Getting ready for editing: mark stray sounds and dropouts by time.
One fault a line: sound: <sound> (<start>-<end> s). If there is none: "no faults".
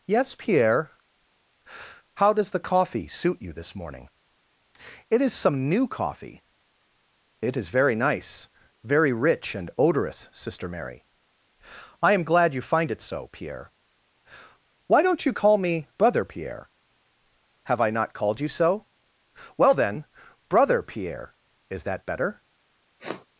sound: sniff (23.0-23.3 s)